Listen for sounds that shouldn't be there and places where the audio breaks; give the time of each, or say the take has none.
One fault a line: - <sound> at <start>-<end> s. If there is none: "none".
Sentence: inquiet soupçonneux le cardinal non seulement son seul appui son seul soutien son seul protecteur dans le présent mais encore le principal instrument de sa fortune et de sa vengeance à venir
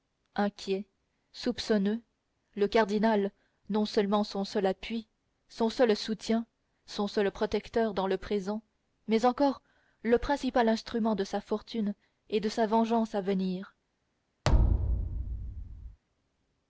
- thud at 14.4-16.0 s